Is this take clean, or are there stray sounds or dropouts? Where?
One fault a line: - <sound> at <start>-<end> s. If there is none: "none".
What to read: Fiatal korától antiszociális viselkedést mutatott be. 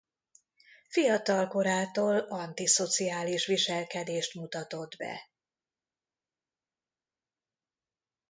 none